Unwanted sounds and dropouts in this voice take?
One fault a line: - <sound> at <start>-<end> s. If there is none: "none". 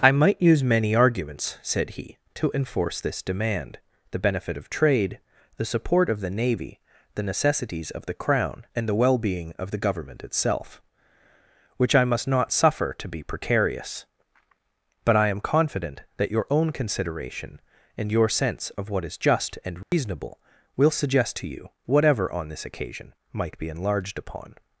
- dropout at 19.8-19.9 s